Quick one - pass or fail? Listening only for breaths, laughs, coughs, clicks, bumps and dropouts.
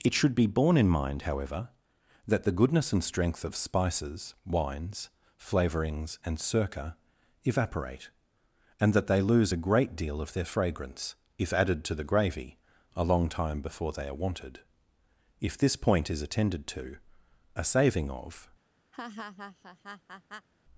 fail